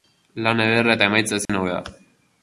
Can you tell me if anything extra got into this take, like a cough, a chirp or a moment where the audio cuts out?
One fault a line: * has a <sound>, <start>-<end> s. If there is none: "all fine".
* has a dropout, 1.5-1.5 s